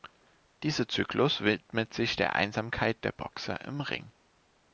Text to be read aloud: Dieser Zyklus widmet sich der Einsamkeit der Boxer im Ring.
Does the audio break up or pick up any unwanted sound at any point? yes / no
no